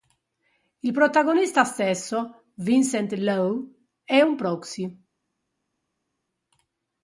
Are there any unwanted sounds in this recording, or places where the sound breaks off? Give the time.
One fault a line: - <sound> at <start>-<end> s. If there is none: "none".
none